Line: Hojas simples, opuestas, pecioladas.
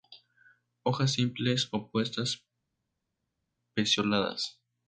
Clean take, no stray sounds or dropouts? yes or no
yes